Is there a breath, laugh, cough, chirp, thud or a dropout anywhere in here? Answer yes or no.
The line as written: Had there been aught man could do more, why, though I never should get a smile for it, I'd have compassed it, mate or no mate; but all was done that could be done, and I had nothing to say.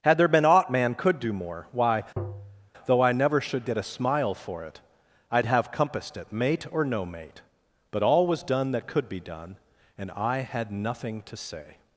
yes